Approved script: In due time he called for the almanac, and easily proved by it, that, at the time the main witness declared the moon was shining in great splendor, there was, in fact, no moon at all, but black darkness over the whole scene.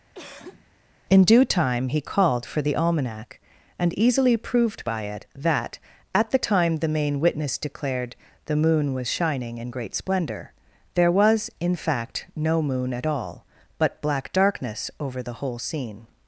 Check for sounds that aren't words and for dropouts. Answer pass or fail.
fail